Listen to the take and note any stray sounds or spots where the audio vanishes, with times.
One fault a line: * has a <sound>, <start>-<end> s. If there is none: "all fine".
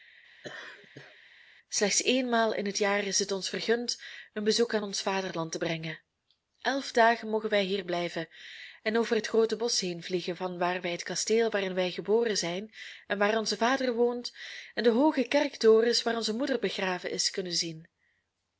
* has a laugh, 0.4-1.2 s